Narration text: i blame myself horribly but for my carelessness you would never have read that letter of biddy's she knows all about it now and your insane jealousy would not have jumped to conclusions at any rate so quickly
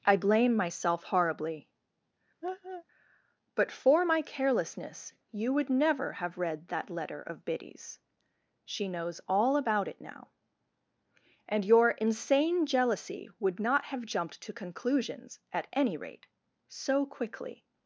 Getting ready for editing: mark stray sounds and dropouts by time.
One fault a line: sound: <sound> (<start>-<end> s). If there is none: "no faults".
sound: laugh (2.4-2.8 s)